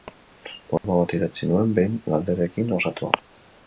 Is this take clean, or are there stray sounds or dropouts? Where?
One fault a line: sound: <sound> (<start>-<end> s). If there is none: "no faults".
sound: dropout (0.8-0.8 s)